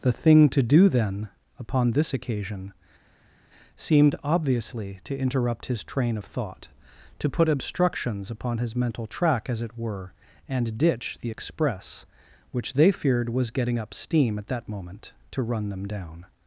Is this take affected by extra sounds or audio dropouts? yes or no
no